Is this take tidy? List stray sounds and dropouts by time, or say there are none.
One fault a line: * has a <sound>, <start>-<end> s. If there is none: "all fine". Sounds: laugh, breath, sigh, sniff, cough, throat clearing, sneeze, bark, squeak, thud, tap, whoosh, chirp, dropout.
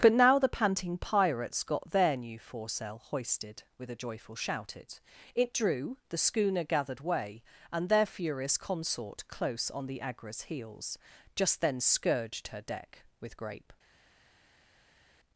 all fine